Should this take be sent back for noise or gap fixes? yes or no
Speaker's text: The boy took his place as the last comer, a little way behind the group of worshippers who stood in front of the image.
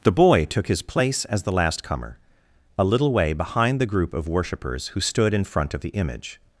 no